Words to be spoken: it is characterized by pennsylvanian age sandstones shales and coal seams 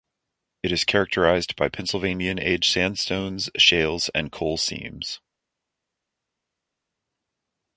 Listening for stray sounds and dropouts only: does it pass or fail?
pass